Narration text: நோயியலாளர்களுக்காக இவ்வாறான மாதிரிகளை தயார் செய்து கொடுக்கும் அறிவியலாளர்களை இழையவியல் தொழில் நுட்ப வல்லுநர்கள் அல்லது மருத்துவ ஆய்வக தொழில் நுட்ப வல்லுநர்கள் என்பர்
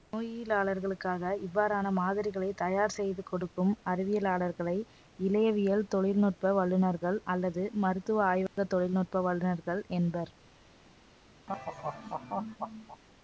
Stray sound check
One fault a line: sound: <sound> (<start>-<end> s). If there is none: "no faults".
sound: dropout (8.5-8.6 s)
sound: laugh (11.5-13.0 s)